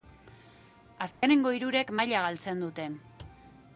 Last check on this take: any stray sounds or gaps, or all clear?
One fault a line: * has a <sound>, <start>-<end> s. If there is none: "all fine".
* has a dropout, 1.1-1.2 s